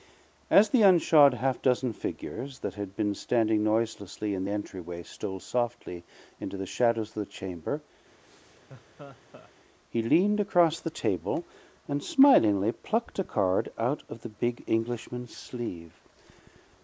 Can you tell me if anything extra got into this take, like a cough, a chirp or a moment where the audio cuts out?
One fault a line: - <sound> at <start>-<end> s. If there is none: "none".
- laugh at 8.2-9.5 s